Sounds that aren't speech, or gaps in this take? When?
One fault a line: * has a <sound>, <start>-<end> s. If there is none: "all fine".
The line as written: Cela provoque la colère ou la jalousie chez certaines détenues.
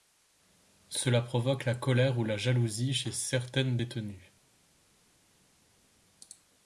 all fine